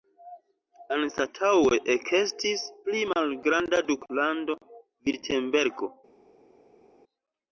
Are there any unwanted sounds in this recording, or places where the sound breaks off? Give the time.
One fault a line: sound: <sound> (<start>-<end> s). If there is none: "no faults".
no faults